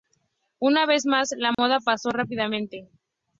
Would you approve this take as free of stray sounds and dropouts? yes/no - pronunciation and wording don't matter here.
no